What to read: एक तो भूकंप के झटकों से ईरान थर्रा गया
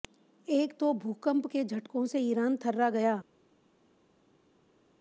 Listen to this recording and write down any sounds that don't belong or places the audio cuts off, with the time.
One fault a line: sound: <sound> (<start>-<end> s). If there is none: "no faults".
no faults